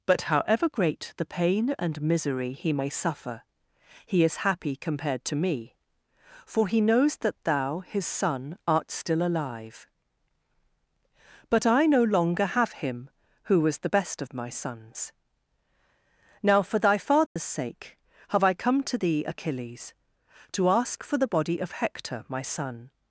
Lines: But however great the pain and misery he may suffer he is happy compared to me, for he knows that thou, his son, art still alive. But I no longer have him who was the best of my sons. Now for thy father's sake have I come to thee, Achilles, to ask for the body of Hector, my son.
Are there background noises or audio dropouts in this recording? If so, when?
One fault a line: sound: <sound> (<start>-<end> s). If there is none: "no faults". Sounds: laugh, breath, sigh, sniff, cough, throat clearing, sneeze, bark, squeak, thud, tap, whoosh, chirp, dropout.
sound: dropout (17.3-17.4 s)